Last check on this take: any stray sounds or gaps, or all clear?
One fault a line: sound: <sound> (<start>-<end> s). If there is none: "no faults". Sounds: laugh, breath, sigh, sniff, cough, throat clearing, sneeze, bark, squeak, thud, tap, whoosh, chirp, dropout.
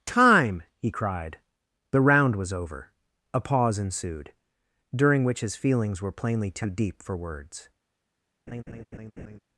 sound: laugh (8.5-9.4 s)